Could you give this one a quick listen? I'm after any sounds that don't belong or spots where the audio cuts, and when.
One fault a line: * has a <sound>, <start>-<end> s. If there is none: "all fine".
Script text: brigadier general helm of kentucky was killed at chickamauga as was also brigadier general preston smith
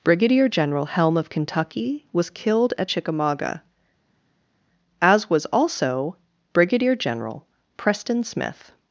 all fine